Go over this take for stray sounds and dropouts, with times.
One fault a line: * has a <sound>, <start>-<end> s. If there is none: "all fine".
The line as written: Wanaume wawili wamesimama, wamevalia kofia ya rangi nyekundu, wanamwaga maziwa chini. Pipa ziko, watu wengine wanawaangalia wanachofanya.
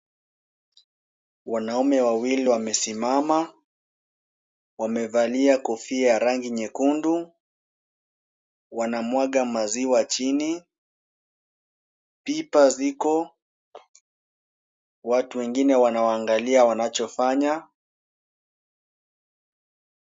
all fine